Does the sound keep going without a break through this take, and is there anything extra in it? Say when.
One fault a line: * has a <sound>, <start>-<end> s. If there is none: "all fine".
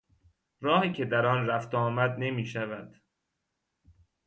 all fine